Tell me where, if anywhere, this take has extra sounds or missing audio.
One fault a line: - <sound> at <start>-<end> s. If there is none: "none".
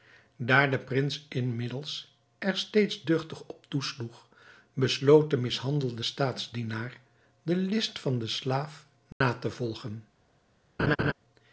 - dropout at 9.1-9.2 s
- laugh at 10.8-11.1 s